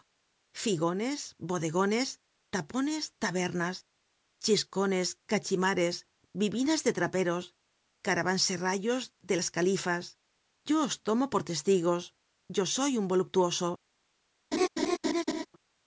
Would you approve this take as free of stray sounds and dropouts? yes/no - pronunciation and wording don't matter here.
no